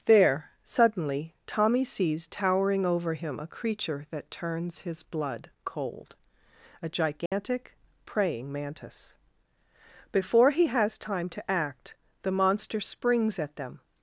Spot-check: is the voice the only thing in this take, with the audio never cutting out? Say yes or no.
no